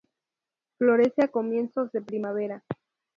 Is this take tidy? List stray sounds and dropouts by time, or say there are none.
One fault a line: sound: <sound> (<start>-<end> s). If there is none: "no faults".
no faults